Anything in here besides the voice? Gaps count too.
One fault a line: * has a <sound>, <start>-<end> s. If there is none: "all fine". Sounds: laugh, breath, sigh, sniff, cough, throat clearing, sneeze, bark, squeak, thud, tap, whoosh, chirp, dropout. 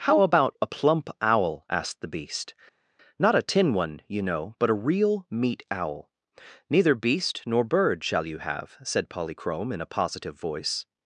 all fine